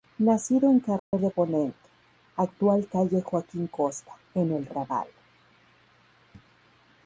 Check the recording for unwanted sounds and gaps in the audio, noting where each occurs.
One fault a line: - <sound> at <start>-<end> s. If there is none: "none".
- dropout at 1.0-1.1 s